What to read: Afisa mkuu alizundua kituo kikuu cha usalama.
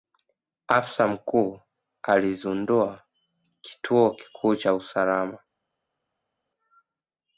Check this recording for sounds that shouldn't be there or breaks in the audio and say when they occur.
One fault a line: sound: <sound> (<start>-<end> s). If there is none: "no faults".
no faults